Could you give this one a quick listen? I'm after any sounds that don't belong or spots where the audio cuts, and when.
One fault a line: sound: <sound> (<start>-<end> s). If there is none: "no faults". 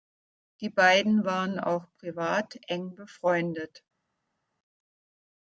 no faults